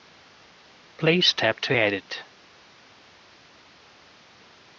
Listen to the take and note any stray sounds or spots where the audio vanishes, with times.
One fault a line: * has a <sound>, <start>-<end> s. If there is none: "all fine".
all fine